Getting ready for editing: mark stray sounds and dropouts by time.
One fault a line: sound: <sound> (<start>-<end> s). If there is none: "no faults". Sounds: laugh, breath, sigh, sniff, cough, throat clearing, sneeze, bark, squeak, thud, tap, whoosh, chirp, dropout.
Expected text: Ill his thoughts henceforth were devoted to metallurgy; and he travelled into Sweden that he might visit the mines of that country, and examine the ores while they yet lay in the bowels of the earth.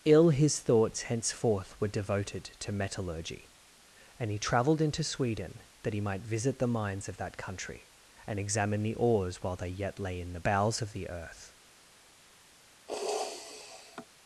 sound: sniff (12.9-14.1 s)